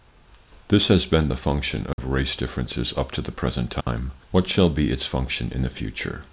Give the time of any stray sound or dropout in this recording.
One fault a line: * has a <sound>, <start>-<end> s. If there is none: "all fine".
* has a dropout, 1.9-2.0 s
* has a dropout, 3.8-3.9 s